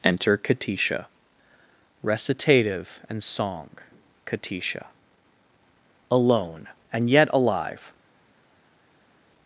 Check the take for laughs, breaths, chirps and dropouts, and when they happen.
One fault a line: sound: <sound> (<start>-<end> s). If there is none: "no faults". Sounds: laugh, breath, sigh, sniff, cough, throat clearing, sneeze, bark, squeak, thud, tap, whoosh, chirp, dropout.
no faults